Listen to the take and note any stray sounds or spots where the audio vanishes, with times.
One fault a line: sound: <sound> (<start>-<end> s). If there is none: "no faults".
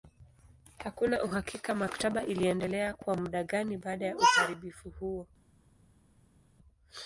no faults